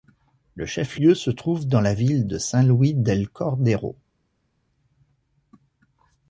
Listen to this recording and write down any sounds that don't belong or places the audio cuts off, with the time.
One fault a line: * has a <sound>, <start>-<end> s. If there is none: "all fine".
all fine